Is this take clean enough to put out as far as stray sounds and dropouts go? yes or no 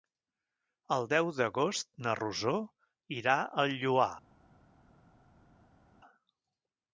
yes